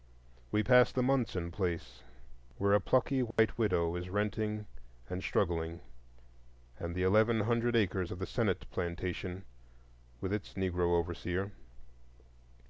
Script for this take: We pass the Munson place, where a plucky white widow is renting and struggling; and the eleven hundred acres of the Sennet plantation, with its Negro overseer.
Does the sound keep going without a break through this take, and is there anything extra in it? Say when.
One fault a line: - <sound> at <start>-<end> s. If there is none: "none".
- dropout at 3.3-3.4 s